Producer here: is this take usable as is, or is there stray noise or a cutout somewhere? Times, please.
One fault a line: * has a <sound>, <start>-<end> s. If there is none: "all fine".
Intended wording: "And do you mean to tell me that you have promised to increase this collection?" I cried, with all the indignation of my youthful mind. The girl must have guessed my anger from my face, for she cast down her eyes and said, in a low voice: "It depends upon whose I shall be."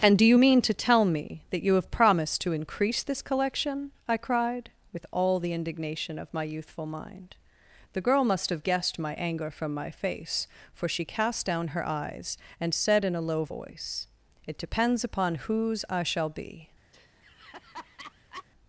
* has a laugh, 16.9-18.5 s